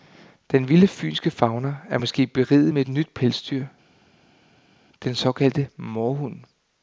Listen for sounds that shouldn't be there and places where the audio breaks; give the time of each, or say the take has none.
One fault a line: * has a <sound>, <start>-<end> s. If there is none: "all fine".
all fine